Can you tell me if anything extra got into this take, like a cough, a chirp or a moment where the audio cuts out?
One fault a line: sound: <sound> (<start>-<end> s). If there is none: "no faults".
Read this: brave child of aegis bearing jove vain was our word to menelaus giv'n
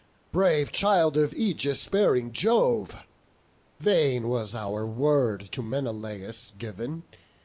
no faults